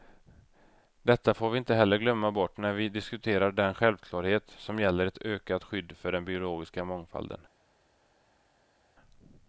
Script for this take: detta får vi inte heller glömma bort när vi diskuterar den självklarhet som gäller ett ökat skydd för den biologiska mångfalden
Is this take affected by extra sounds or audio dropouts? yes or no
no